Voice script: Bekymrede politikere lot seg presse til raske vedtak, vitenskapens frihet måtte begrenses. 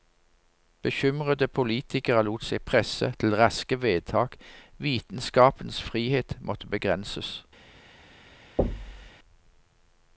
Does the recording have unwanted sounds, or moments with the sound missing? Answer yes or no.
yes